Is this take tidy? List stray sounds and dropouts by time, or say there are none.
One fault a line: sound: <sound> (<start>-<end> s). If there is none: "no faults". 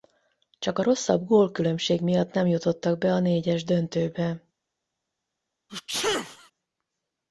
sound: sneeze (5.7-6.5 s)